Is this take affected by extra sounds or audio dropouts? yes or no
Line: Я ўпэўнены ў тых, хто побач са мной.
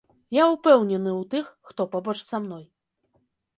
no